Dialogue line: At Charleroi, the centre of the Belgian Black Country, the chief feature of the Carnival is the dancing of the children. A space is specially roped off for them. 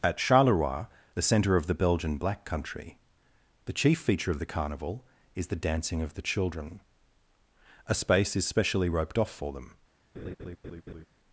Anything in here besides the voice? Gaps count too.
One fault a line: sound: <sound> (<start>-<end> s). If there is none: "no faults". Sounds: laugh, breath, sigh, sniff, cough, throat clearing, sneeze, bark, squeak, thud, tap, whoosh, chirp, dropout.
sound: laugh (10.1-11.1 s)